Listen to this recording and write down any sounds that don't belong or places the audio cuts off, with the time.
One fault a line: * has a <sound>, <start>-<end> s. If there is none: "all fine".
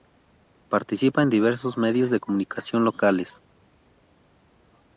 all fine